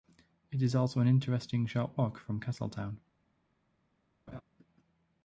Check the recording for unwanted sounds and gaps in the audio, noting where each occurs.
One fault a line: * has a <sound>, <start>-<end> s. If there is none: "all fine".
* has a laugh, 4.3-4.4 s